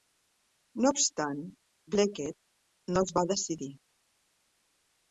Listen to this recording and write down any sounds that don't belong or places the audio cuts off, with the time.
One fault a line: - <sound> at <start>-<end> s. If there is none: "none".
none